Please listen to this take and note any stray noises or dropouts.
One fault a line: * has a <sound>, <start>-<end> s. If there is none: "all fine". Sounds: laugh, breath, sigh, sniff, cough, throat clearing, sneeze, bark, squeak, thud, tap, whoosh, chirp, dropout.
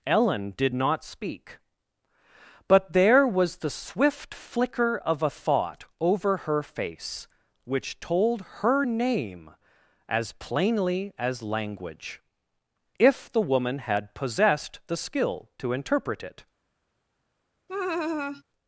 * has a laugh, 17.7-18.4 s